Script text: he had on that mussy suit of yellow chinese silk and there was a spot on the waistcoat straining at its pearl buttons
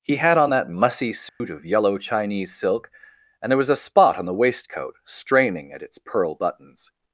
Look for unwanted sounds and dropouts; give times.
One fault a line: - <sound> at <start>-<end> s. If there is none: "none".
- dropout at 1.3-1.4 s